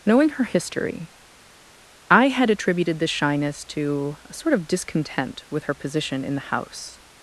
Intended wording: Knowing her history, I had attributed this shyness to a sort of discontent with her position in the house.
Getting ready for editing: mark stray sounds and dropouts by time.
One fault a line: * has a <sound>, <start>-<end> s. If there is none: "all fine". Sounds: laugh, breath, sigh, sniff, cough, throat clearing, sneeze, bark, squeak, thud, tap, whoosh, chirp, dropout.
all fine